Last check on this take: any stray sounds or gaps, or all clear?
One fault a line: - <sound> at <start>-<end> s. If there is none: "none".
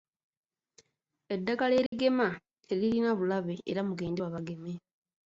- dropout at 1.9-1.9 s